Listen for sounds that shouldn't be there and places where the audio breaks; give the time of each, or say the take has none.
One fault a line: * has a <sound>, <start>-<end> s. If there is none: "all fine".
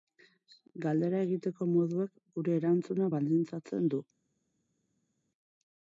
all fine